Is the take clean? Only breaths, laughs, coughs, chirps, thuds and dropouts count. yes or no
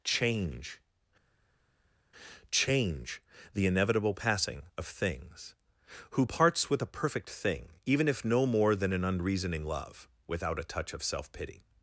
yes